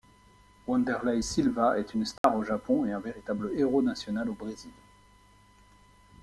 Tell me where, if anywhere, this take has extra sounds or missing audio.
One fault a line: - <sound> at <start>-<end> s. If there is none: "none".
- dropout at 2.2-2.2 s